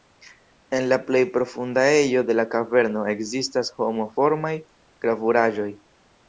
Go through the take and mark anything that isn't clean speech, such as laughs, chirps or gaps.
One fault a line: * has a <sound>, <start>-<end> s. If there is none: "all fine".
all fine